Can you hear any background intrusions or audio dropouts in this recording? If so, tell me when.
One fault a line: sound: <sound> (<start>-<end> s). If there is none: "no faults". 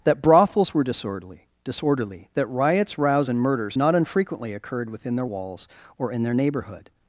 no faults